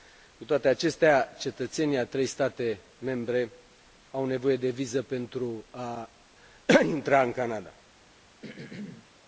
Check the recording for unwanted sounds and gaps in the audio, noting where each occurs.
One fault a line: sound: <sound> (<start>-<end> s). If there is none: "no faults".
sound: throat clearing (8.4-9.1 s)